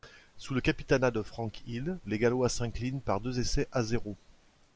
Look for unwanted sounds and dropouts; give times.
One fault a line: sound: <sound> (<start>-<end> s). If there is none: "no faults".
no faults